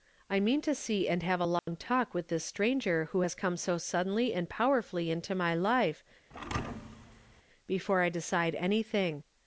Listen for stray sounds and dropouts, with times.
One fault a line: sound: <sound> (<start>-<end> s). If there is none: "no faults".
sound: dropout (1.6-1.7 s)
sound: thud (6.3-7.4 s)